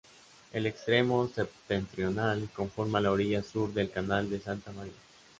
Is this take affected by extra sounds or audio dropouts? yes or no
no